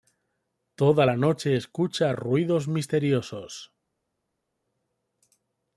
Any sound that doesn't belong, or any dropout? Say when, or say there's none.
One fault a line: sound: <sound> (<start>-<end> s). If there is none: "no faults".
no faults